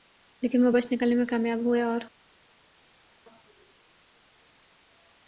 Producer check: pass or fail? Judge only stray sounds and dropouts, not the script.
pass